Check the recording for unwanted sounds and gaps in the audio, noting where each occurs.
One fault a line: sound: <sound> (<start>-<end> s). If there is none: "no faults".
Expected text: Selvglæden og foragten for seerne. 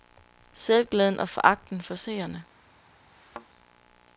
sound: thud (3.1-3.5 s)